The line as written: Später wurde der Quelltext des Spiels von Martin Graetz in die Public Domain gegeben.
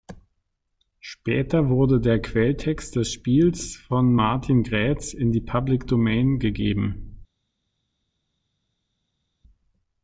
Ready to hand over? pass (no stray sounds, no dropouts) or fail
pass